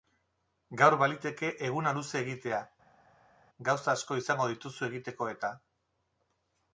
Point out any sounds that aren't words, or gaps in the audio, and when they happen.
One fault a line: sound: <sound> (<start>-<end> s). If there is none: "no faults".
no faults